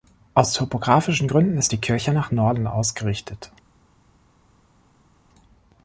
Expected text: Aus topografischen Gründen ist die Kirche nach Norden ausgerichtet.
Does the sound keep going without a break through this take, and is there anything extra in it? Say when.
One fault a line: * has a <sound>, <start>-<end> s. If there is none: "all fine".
all fine